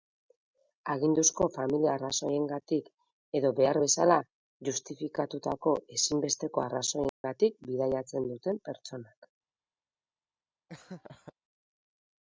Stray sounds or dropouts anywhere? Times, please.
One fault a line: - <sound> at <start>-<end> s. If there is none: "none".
- dropout at 7.1-7.2 s
- laugh at 10.7-11.3 s